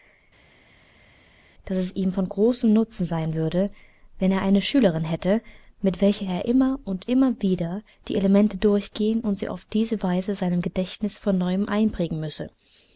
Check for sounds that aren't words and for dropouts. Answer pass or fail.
pass